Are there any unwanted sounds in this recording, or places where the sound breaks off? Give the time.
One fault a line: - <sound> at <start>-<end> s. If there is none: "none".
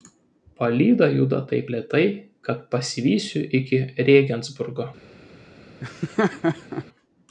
- laugh at 5.8-6.9 s